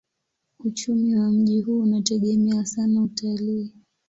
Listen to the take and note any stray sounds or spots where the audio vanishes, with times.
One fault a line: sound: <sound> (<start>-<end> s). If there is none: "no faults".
no faults